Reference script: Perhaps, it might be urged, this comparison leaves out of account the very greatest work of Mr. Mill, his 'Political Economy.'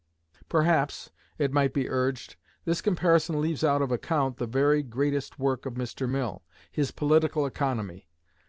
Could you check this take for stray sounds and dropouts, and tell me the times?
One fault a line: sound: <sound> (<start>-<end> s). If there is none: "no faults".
no faults